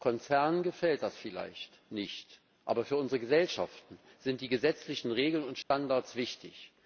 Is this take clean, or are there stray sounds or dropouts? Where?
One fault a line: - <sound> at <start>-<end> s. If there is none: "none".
- dropout at 5.6-5.7 s